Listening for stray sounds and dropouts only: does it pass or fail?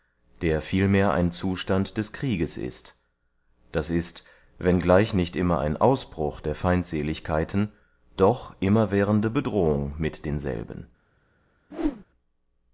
fail